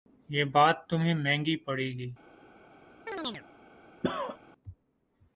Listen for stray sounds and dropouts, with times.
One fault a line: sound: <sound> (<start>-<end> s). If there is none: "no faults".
sound: chirp (3.1-3.4 s)
sound: cough (4.0-4.4 s)